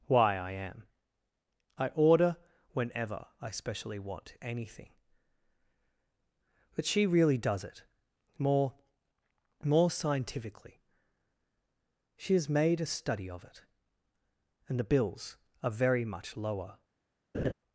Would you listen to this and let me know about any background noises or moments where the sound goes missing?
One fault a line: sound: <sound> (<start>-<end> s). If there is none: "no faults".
sound: laugh (17.3-17.5 s)